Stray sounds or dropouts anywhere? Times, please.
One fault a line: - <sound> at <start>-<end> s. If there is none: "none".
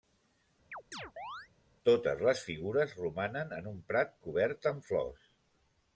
- chirp at 0.7-1.5 s